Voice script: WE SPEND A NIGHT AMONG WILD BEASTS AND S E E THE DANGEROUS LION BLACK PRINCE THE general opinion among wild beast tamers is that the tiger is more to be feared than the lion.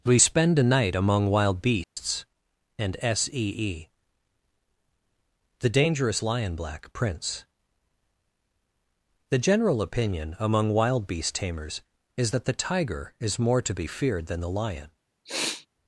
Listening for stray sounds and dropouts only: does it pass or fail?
fail